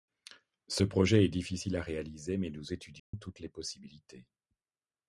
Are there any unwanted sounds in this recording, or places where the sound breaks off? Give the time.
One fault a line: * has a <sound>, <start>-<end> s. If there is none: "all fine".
* has a dropout, 3.0-3.1 s